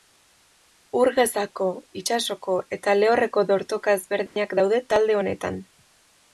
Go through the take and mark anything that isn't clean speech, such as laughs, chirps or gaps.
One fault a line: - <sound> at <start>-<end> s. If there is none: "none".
- dropout at 4.3-4.4 s